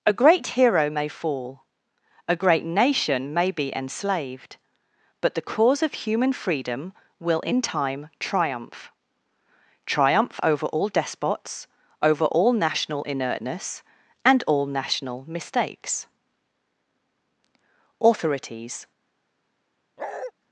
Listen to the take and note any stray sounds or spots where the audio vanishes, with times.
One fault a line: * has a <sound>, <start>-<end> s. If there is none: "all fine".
* has a bark, 20.0-20.3 s